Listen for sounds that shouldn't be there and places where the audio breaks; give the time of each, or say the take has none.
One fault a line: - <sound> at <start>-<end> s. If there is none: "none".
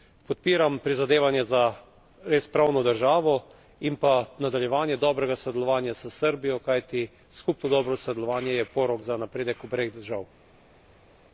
none